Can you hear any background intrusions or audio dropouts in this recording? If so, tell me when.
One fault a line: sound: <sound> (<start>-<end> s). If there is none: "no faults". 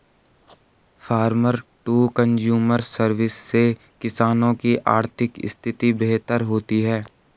no faults